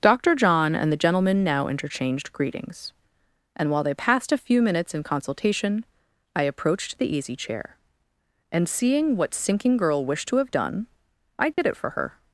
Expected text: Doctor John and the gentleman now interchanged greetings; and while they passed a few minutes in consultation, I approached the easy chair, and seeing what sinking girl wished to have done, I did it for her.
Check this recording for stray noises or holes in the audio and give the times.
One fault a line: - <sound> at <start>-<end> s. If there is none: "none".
- dropout at 11.5-11.6 s